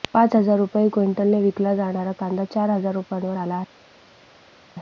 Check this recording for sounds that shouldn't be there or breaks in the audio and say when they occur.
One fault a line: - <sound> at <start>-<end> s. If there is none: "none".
none